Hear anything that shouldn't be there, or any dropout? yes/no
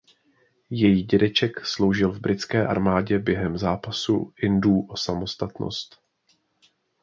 no